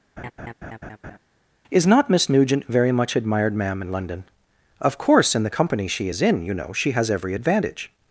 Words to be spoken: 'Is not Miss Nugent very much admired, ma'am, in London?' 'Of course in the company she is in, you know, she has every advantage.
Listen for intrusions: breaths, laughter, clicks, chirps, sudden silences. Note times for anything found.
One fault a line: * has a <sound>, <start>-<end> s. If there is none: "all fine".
* has a laugh, 0.2-1.2 s